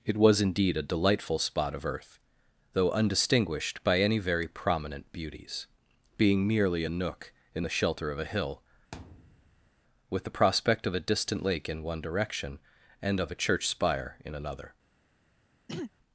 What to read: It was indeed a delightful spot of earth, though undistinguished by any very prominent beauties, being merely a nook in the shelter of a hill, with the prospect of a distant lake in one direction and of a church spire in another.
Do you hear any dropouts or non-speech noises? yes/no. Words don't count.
yes